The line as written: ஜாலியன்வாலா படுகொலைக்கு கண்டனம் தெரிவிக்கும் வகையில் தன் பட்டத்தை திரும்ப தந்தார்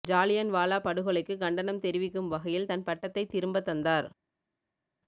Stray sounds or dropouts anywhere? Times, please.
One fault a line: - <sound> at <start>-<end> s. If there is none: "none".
none